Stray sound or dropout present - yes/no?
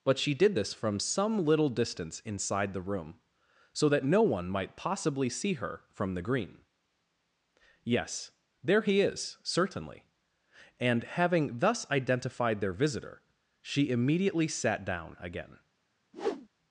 yes